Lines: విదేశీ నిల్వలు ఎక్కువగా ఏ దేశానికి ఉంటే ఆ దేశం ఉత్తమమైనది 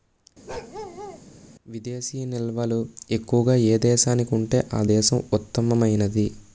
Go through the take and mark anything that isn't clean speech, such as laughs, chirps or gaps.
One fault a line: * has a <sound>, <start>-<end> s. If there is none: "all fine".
* has a bark, 0.5-1.2 s